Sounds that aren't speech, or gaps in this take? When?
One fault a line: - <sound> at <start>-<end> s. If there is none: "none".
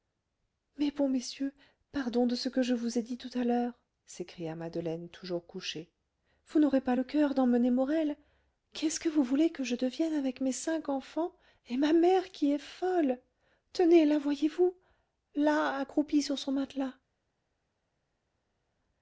none